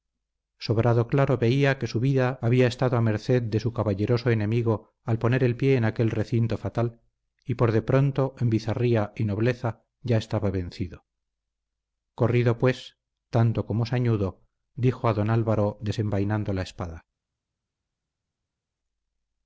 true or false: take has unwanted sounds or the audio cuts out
false